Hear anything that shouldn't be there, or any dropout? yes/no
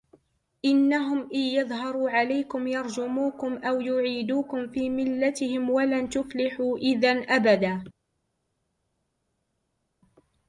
no